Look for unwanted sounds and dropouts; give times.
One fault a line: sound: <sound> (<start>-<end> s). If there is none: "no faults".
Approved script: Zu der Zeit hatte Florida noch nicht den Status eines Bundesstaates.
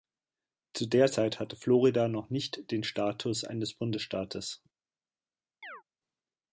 sound: chirp (5.6-5.8 s)